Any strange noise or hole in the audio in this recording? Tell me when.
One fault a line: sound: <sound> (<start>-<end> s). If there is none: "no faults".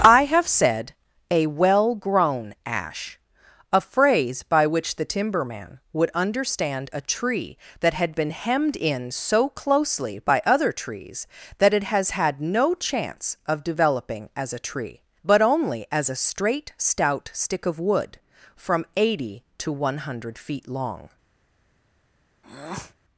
sound: breath (22.4-23.0 s)